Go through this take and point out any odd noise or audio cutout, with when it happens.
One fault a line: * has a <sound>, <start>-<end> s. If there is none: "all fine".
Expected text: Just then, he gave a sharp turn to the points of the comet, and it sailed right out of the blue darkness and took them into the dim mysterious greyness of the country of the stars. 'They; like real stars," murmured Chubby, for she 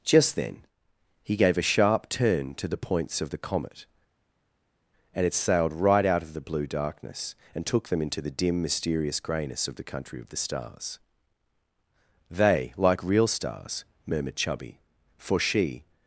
all fine